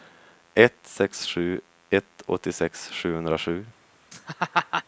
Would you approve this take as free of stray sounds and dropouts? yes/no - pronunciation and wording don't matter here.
no